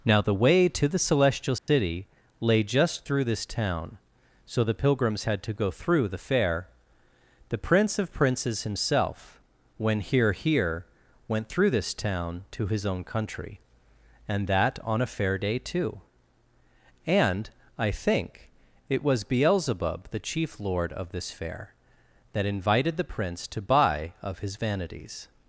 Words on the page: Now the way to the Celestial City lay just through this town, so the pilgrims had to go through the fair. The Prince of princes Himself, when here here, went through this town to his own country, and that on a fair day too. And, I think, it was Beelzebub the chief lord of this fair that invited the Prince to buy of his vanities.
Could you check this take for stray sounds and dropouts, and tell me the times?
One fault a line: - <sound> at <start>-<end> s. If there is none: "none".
- dropout at 1.6-1.7 s